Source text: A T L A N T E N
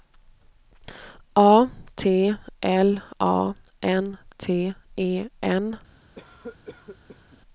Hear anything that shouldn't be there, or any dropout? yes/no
yes